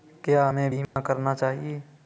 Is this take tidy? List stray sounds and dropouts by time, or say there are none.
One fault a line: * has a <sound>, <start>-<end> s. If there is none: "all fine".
* has a dropout, 0.8-1.0 s